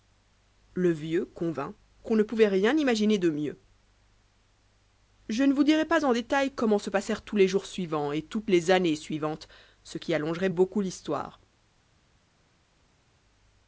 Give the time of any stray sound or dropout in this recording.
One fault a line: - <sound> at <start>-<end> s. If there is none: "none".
none